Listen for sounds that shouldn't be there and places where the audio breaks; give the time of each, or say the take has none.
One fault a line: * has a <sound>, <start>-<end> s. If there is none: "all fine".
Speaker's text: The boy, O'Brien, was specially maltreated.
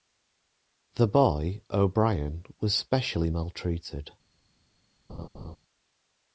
* has a laugh, 5.1-5.6 s